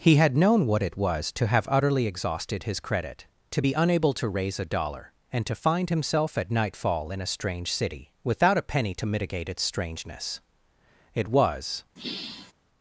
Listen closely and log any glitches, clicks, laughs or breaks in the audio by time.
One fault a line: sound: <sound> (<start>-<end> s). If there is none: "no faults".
sound: sigh (12.0-12.5 s)